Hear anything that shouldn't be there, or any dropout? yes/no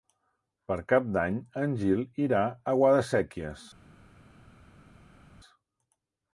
no